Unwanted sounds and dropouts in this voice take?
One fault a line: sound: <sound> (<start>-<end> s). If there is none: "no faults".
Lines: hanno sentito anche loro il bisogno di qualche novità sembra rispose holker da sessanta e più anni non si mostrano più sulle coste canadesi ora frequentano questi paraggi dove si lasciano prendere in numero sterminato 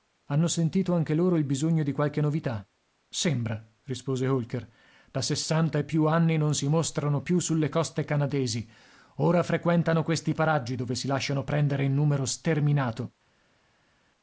no faults